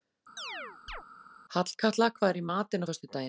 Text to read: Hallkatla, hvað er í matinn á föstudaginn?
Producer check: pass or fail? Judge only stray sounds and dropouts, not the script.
fail